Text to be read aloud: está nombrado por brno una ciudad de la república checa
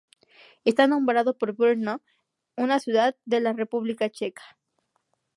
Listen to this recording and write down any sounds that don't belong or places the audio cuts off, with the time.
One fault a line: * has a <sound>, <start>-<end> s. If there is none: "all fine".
all fine